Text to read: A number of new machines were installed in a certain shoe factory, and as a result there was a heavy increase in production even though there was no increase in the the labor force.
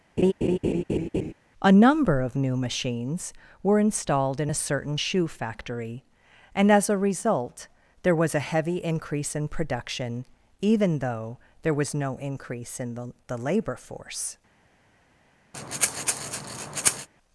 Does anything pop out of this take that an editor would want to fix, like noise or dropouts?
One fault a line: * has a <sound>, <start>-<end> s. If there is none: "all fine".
* has a laugh, 0.2-1.3 s
* has a breath, 15.5-17.1 s